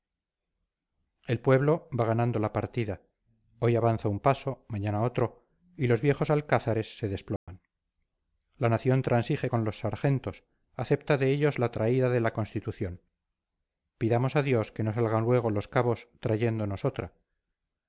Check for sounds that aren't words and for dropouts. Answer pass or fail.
fail